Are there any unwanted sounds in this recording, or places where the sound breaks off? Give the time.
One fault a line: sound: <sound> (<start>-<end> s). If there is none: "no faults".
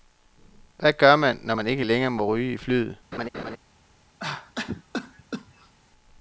sound: laugh (3.1-3.6 s)
sound: cough (4.2-5.7 s)